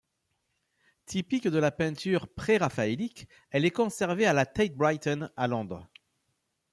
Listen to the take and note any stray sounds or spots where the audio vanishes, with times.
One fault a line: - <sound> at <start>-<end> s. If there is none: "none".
none